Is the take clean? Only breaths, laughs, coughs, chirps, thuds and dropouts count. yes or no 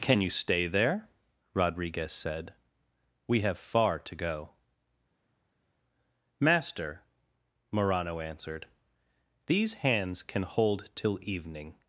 yes